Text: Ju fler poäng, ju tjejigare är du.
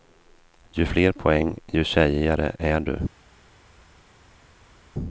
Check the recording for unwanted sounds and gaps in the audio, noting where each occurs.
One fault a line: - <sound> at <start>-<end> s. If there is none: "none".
none